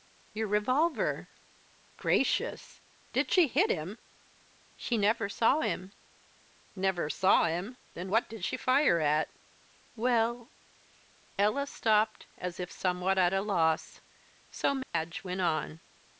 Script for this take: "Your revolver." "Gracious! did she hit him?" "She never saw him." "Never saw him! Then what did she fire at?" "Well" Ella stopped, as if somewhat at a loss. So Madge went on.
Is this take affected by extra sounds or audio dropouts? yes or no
yes